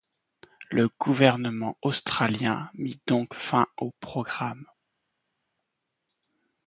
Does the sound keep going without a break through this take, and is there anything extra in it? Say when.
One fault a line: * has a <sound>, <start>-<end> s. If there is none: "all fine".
all fine